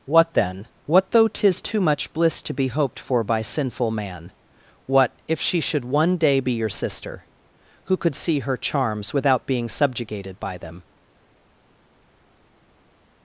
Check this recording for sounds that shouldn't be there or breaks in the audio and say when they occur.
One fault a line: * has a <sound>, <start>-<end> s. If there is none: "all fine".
all fine